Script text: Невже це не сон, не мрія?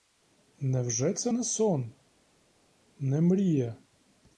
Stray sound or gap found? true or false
false